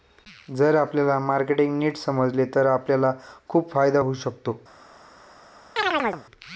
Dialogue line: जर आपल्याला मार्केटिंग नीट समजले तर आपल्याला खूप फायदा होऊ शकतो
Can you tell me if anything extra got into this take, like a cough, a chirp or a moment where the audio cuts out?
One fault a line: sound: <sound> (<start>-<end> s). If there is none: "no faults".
sound: chirp (5.8-6.3 s)